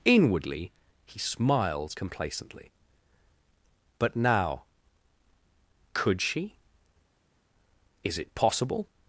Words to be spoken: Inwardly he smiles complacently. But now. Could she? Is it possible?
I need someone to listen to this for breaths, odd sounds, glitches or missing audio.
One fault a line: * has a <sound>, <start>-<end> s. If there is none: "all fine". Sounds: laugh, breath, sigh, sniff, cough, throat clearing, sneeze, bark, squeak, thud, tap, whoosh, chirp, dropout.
all fine